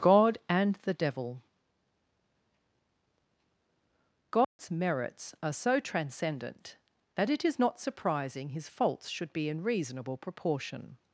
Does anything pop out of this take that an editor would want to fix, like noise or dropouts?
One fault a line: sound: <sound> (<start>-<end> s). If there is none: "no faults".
sound: dropout (4.4-4.6 s)